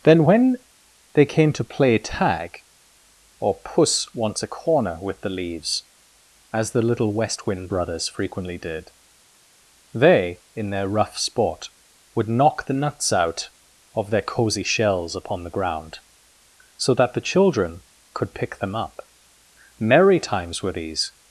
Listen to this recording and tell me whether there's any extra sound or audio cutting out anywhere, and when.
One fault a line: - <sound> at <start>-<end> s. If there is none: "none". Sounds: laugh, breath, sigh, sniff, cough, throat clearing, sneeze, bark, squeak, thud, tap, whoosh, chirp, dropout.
none